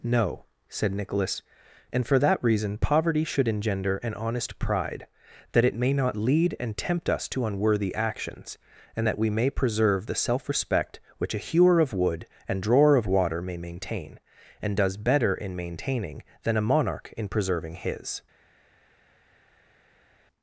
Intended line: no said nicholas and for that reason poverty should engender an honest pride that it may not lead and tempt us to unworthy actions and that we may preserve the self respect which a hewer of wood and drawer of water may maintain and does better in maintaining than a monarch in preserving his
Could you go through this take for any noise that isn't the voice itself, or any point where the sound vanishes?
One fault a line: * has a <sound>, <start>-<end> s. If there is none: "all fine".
all fine